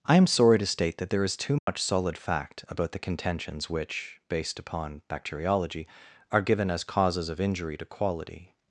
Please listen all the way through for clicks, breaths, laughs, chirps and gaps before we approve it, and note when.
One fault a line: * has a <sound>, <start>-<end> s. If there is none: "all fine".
* has a dropout, 1.6-1.7 s